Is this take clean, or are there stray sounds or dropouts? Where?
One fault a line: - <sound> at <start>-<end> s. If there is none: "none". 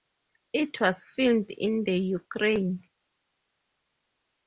none